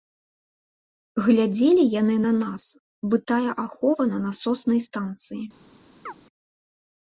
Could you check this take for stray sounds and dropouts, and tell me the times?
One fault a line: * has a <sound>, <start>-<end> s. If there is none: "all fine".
* has a chirp, 6.1-6.1 s